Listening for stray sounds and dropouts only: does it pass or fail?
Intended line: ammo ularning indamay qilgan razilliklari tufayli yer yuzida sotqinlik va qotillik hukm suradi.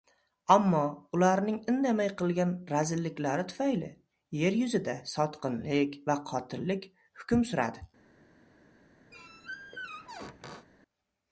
fail